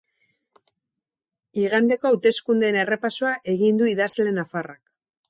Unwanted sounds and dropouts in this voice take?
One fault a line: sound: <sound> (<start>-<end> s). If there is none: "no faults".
sound: dropout (4.1-4.1 s)